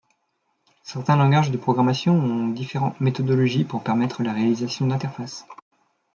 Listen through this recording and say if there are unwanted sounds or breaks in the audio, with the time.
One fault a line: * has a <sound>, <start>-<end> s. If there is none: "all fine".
all fine